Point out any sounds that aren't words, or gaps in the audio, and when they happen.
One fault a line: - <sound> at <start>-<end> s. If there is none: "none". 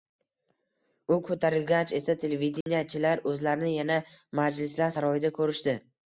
- dropout at 2.6-2.7 s